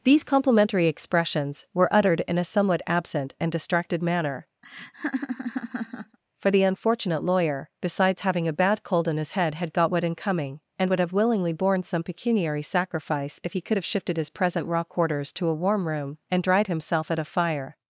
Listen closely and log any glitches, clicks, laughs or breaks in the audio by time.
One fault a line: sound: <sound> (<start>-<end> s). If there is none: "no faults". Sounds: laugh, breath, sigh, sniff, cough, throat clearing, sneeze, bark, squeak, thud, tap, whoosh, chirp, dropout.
sound: laugh (4.6-6.2 s)